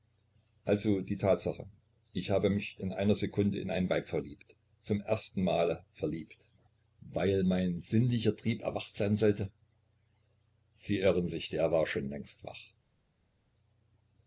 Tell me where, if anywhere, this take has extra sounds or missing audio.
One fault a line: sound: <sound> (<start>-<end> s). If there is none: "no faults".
no faults